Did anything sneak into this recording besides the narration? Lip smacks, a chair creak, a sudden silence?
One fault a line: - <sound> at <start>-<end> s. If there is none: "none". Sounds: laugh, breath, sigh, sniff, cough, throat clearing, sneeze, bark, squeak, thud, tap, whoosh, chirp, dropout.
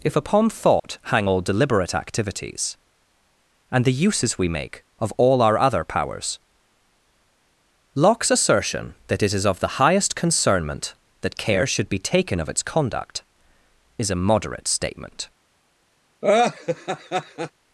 - dropout at 0.8-0.8 s
- laugh at 16.2-17.5 s